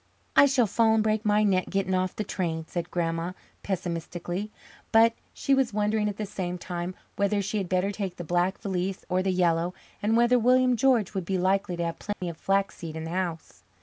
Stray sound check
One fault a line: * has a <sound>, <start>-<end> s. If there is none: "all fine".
* has a dropout, 12.1-12.2 s